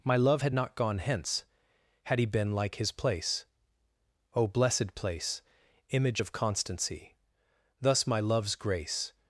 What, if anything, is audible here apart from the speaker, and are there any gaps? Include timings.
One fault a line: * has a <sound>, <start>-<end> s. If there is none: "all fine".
all fine